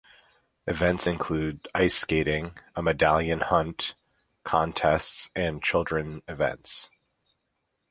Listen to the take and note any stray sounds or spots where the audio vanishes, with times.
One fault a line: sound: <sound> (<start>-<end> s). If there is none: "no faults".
no faults